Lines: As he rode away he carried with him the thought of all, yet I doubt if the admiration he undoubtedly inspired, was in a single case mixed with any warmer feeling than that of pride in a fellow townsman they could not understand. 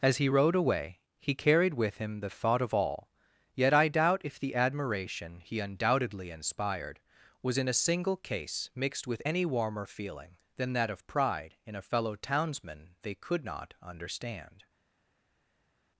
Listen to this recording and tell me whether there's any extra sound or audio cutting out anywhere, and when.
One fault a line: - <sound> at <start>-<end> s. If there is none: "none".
none